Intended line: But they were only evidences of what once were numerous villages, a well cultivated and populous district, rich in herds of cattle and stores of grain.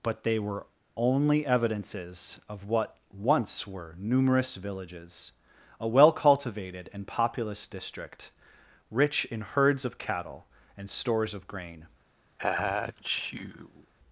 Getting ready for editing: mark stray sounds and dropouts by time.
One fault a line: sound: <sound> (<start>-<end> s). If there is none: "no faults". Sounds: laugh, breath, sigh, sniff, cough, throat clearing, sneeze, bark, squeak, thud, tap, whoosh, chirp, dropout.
sound: sneeze (12.4-13.9 s)